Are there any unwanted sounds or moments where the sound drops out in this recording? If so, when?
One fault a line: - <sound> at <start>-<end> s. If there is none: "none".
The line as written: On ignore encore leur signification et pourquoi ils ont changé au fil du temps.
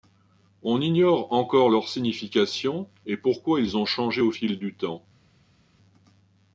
none